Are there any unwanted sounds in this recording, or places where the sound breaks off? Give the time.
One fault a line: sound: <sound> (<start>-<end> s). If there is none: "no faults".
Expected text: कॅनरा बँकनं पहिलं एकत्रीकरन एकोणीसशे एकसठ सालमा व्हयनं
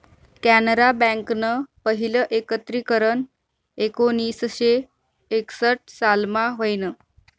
no faults